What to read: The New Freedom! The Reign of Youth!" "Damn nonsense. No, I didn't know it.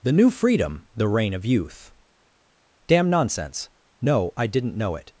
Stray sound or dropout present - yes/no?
no